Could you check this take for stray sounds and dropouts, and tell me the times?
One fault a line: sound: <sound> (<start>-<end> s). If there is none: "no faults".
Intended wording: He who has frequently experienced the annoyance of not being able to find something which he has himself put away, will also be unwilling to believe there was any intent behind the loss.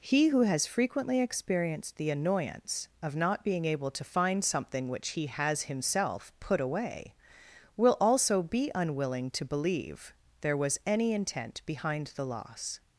no faults